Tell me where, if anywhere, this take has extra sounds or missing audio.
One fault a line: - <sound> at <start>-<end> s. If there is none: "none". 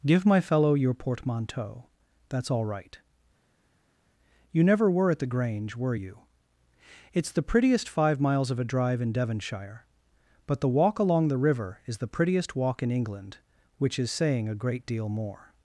none